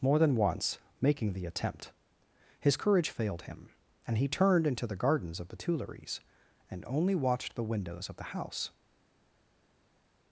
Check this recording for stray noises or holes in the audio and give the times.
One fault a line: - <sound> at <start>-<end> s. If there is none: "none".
none